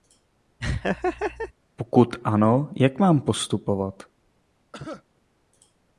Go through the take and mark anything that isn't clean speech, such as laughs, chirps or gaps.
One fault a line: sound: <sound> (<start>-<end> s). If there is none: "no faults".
sound: laugh (0.6-1.5 s)
sound: cough (4.7-5.0 s)